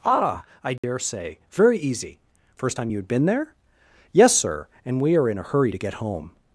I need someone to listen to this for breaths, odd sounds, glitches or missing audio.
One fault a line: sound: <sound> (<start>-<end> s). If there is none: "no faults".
sound: dropout (0.8-0.8 s)